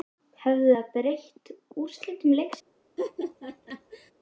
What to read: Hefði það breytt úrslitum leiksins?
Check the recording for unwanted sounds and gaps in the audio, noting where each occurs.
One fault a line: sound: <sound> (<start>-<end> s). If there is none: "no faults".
sound: laugh (3.0-4.1 s)